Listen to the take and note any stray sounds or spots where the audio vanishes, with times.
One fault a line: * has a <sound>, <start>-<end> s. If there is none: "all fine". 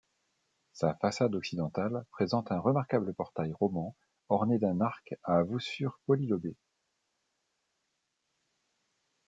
all fine